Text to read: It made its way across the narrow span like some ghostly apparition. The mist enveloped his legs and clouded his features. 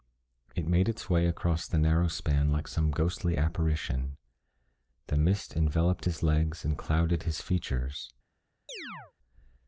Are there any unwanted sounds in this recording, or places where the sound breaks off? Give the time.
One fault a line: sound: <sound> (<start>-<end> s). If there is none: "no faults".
sound: chirp (8.7-9.1 s)